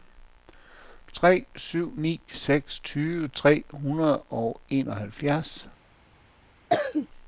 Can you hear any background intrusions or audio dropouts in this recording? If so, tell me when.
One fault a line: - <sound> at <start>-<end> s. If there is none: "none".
- cough at 6.7-7.1 s